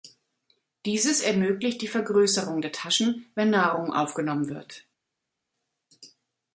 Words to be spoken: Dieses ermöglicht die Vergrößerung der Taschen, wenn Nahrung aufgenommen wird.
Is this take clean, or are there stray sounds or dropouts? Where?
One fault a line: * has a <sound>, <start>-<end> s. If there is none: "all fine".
all fine